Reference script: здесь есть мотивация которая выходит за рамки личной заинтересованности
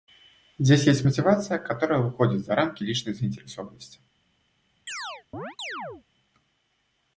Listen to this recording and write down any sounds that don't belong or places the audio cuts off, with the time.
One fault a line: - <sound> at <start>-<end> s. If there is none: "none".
- chirp at 4.9-6.0 s